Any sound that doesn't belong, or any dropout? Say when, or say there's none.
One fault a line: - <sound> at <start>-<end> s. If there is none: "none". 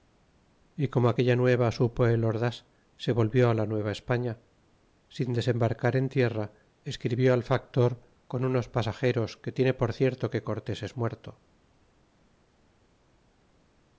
none